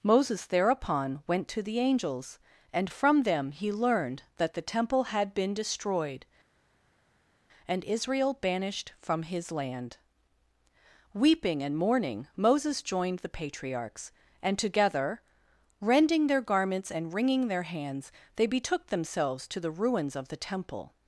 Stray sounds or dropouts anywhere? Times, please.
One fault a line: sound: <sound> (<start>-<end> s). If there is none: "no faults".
no faults